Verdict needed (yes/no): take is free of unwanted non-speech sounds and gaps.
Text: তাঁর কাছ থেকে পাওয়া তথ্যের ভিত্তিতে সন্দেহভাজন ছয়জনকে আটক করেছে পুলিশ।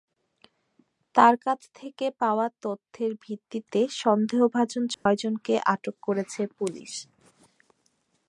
no